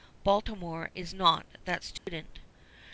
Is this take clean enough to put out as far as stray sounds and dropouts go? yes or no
no